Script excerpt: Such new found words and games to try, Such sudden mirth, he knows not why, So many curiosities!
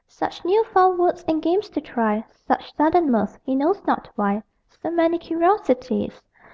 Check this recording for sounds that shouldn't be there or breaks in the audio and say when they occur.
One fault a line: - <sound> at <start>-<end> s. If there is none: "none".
none